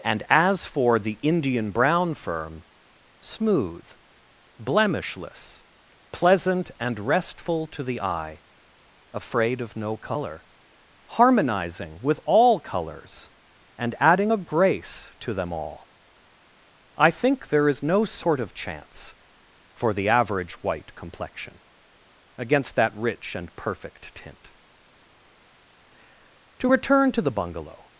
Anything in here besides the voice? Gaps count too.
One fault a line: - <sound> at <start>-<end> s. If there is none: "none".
none